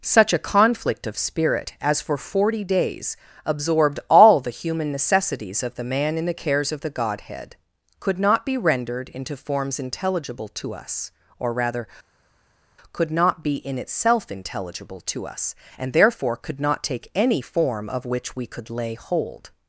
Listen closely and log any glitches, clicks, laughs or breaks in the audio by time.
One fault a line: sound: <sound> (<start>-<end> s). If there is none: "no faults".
no faults